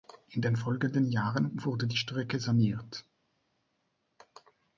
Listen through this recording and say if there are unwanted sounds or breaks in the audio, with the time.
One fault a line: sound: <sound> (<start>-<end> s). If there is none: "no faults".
no faults